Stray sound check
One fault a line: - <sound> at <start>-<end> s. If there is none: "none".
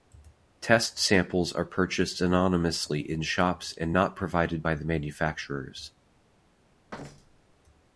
- thud at 6.9-7.6 s